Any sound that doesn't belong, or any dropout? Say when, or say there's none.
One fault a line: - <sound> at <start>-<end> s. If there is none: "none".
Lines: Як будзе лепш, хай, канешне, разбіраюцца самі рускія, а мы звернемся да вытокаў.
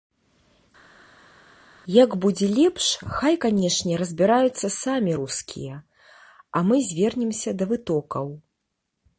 none